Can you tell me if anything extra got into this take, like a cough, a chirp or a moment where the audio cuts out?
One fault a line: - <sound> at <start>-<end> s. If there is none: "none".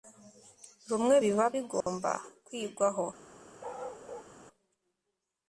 - dropout at 1.8-1.9 s
- bark at 3.6-4.3 s